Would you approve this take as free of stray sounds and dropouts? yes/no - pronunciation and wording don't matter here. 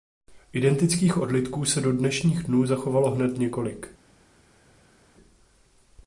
yes